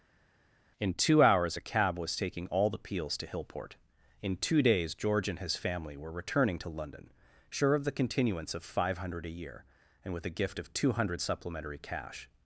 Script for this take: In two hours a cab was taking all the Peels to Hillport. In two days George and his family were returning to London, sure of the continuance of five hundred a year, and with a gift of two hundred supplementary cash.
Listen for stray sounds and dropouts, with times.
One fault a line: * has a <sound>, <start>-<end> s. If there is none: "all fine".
all fine